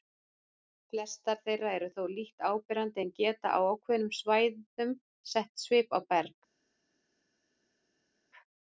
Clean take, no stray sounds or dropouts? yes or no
yes